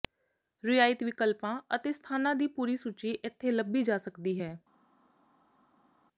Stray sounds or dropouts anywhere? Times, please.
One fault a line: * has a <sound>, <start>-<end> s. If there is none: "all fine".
all fine